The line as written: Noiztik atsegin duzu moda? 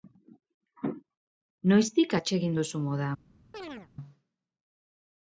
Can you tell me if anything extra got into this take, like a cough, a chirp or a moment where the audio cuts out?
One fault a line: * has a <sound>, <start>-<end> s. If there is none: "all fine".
* has a chirp, 3.5-3.9 s